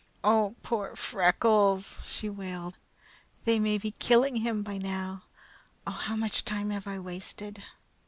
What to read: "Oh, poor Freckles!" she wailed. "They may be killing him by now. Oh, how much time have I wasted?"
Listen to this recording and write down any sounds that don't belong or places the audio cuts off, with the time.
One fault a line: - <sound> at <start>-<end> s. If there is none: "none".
none